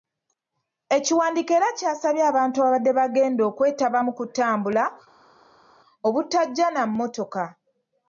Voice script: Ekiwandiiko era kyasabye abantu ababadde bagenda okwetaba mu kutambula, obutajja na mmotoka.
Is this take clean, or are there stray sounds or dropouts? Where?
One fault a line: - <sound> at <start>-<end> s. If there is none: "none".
none